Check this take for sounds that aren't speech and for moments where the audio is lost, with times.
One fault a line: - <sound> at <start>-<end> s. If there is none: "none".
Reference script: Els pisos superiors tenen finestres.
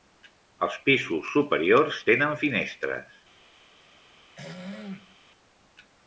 - throat clearing at 4.4-5.2 s